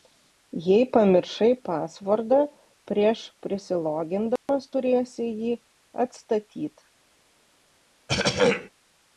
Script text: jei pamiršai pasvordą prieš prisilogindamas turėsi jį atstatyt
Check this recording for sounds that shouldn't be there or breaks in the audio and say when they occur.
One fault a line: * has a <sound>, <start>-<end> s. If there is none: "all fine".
* has a dropout, 4.4-4.5 s
* has a throat clearing, 8.1-8.7 s